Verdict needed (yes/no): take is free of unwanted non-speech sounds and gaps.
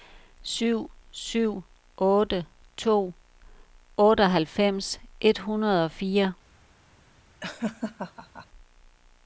no